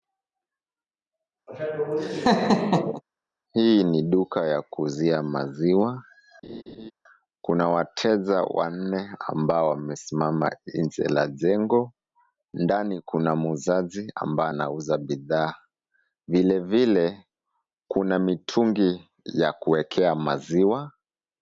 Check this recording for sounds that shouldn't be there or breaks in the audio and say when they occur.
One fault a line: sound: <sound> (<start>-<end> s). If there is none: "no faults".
sound: laugh (1.5-3.0 s)
sound: laugh (6.4-6.9 s)